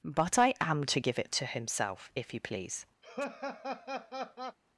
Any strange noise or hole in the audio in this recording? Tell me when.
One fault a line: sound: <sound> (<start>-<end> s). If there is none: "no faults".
sound: laugh (3.0-4.6 s)